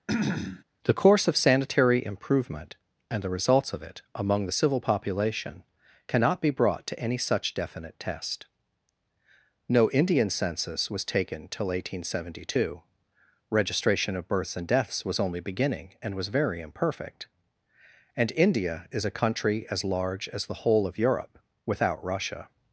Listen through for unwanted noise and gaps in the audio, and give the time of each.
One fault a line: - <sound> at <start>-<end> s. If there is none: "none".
- throat clearing at 0.1-0.6 s